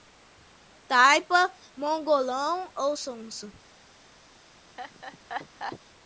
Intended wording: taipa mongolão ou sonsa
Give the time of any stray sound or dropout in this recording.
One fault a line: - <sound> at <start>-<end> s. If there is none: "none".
- laugh at 4.8-5.8 s